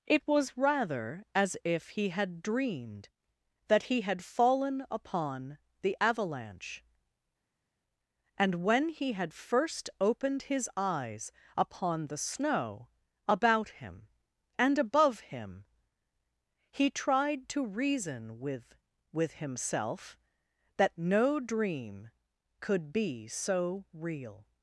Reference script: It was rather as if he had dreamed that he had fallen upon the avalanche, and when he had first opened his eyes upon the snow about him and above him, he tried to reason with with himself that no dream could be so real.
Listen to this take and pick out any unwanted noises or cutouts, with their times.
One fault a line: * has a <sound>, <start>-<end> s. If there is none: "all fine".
all fine